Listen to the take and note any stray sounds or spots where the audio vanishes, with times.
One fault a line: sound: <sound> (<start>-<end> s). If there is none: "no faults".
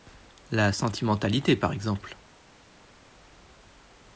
no faults